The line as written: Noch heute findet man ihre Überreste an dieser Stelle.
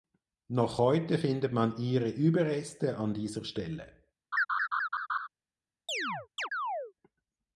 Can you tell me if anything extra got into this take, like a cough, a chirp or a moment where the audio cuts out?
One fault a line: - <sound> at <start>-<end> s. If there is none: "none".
- laugh at 4.3-5.3 s
- chirp at 5.9-6.9 s